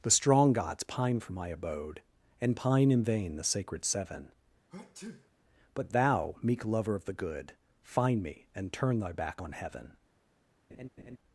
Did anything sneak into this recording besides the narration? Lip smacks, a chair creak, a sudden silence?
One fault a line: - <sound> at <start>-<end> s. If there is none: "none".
- sneeze at 4.7-5.3 s
- laugh at 10.7-11.2 s